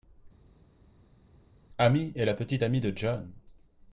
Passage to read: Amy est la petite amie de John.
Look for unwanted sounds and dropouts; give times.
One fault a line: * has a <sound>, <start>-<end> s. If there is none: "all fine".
all fine